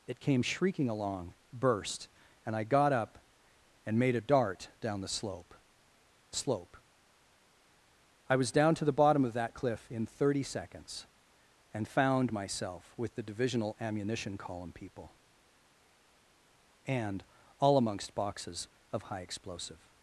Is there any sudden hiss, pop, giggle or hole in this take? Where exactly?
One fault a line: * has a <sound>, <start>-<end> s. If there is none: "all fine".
all fine